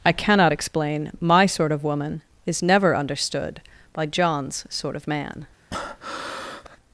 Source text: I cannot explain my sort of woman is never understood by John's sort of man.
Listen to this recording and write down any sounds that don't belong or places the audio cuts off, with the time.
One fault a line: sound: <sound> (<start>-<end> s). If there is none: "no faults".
sound: breath (5.7-6.8 s)